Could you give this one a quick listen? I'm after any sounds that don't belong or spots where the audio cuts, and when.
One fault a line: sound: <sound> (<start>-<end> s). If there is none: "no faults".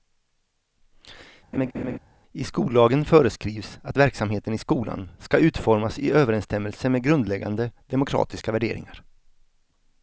sound: laugh (1.5-2.0 s)